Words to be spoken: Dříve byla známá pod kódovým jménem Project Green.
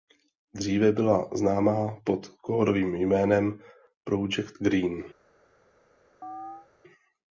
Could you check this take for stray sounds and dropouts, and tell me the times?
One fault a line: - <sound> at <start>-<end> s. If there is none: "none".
- chirp at 6.2-6.7 s